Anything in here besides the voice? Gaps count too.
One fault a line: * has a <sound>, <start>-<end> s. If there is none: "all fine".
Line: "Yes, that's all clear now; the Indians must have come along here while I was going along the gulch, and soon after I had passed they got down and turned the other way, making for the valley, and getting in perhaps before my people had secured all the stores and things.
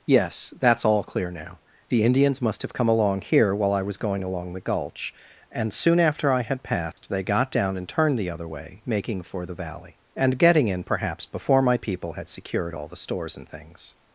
* has a dropout, 6.9-7.0 s